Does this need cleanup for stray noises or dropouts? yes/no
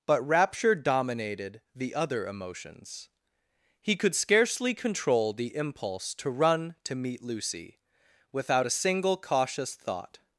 no